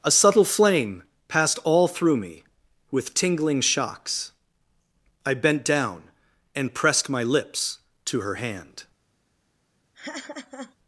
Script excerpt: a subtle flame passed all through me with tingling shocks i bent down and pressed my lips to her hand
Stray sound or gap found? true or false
true